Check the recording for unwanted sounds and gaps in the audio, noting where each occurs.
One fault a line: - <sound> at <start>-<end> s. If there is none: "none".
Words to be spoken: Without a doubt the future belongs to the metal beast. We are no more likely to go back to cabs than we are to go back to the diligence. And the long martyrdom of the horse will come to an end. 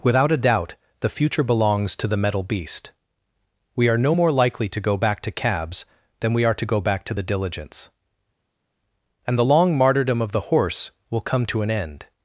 none